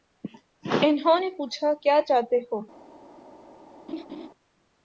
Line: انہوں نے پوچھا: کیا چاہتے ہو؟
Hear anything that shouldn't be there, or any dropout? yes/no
yes